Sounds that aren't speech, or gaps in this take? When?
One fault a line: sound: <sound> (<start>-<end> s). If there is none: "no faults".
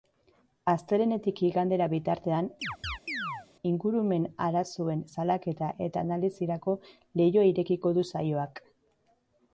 sound: chirp (2.6-3.5 s)